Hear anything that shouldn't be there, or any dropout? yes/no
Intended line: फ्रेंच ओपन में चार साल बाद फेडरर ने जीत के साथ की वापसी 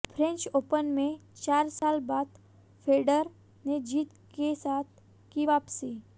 yes